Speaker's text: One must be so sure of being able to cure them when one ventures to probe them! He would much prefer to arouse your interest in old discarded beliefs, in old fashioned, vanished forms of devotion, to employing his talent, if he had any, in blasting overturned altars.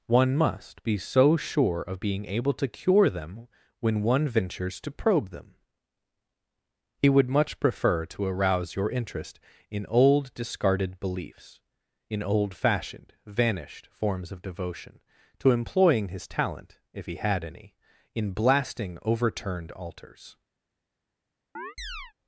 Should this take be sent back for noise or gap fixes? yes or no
yes